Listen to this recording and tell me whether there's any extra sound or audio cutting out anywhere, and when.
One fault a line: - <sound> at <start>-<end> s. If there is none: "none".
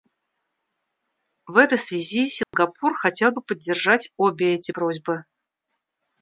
- dropout at 2.4-2.5 s